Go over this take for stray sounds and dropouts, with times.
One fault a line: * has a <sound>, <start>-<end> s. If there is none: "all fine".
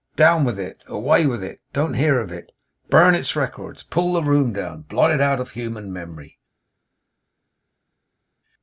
all fine